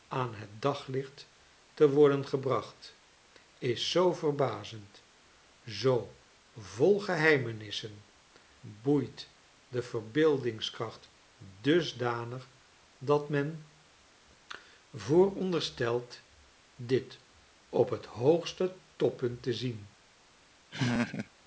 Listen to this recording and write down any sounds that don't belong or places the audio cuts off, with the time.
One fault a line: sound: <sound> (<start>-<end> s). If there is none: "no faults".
sound: laugh (20.7-21.3 s)